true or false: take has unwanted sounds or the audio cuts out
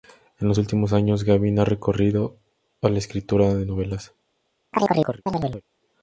true